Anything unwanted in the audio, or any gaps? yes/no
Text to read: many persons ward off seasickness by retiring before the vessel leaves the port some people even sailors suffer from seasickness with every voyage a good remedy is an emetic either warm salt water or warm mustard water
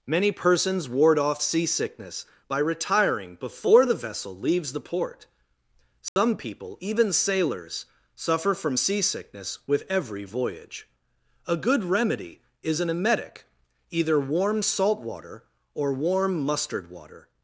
yes